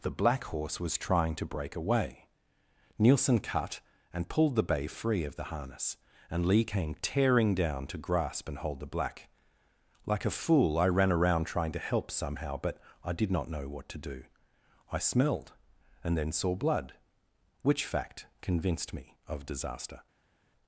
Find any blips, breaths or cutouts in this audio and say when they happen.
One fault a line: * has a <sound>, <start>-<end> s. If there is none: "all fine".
all fine